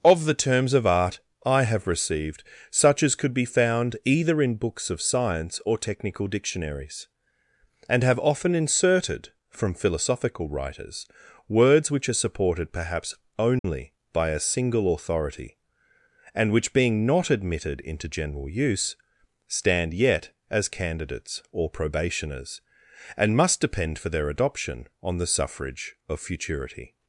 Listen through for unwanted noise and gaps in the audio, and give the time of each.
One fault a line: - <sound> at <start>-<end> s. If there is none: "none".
- dropout at 13.6-13.6 s